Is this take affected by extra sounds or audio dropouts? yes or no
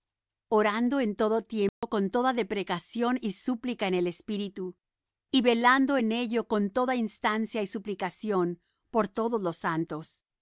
yes